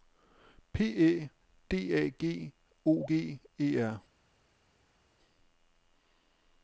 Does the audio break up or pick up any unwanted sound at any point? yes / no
no